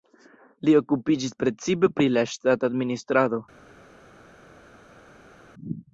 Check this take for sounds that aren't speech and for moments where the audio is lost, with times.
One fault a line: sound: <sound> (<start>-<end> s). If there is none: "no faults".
no faults